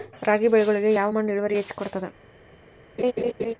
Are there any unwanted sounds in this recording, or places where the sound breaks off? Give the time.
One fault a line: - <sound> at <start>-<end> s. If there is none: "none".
- laugh at 3.0-3.5 s